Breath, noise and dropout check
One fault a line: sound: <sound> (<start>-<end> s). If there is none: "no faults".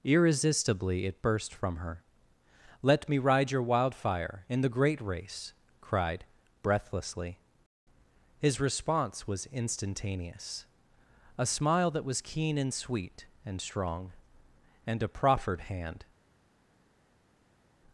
no faults